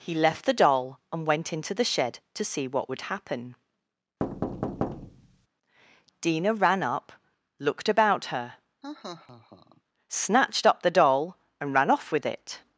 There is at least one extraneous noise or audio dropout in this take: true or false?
true